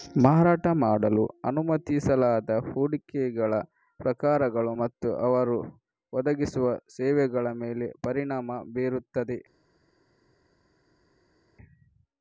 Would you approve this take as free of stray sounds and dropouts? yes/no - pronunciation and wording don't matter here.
yes